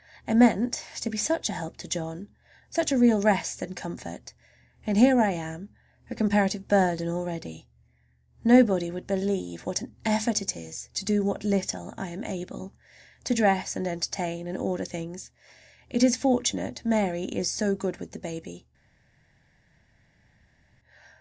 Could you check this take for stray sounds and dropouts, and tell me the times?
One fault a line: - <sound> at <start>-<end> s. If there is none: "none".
none